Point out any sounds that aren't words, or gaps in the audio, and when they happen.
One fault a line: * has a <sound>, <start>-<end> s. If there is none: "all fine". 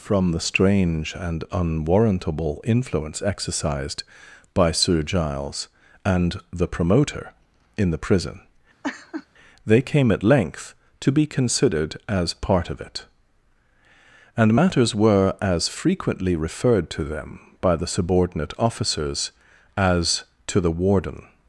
* has a laugh, 8.8-9.3 s